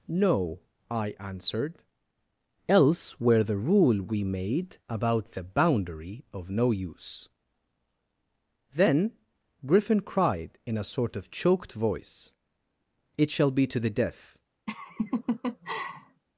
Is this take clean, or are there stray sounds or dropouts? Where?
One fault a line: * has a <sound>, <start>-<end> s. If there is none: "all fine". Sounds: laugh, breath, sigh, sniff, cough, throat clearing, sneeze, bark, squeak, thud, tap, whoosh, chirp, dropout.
* has a laugh, 14.7-16.2 s